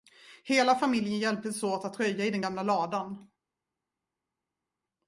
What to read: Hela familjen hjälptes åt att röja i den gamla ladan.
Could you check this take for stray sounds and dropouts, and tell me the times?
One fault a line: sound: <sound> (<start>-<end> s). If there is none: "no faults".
no faults